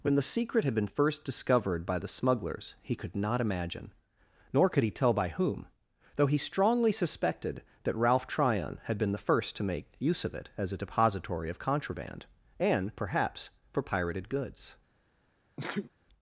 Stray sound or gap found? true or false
true